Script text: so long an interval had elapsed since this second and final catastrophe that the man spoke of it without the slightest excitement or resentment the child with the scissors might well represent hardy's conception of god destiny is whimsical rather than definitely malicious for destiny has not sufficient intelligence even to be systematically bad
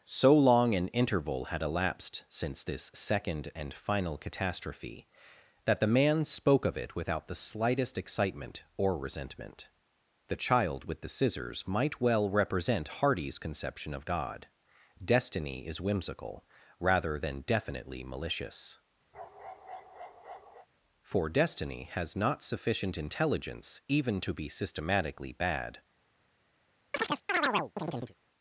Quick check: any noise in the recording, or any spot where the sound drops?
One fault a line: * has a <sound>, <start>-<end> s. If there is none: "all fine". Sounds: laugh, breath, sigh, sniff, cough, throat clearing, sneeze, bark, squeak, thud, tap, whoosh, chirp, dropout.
* has a bark, 19.1-20.7 s
* has a chirp, 26.9-28.1 s